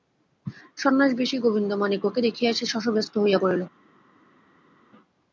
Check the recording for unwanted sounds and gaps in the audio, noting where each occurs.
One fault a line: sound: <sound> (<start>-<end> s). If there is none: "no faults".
no faults